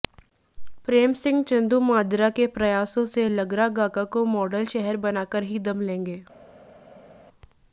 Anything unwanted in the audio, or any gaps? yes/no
no